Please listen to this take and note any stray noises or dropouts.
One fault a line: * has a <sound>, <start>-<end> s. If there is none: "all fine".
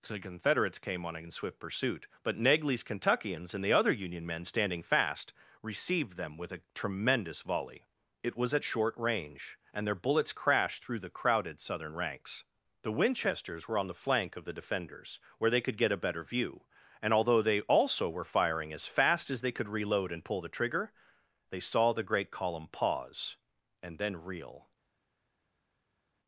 all fine